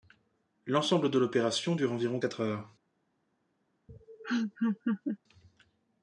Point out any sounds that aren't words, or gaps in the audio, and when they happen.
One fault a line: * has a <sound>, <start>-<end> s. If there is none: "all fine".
* has a laugh, 3.9-5.2 s